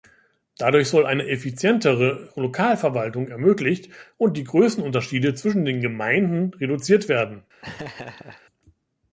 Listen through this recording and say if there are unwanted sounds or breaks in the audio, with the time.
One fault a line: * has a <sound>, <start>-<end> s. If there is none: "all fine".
* has a laugh, 7.6-8.4 s